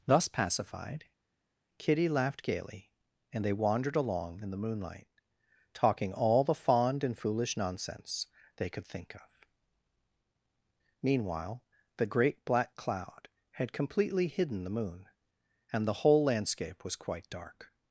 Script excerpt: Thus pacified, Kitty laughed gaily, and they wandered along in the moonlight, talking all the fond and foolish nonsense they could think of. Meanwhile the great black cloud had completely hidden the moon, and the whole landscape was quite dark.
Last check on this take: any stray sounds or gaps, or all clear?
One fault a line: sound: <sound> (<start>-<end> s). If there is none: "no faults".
no faults